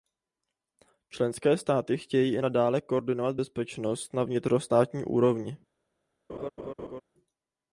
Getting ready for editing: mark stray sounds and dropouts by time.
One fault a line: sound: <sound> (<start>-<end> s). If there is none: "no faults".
sound: laugh (6.3-7.0 s)